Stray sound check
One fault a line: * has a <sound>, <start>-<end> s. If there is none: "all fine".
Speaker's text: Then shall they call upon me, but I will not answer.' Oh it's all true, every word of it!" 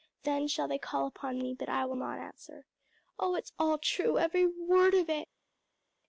all fine